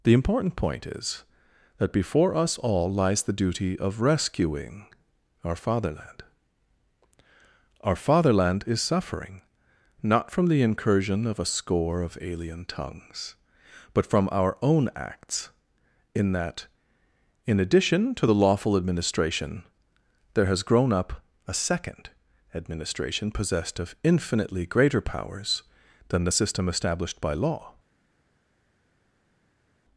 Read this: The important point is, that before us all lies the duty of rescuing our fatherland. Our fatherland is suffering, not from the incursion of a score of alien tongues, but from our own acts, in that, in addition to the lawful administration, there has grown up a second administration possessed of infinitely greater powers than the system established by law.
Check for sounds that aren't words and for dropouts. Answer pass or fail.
pass